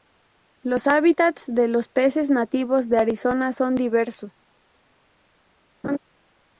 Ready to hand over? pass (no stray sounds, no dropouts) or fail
fail